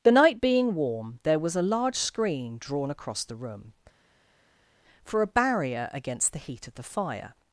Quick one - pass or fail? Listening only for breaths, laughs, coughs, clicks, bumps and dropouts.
pass